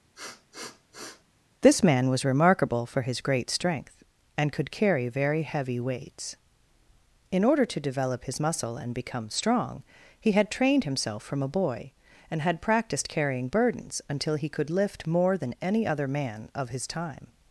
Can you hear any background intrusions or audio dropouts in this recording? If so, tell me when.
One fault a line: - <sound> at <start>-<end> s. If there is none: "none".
- sniff at 0.1-1.2 s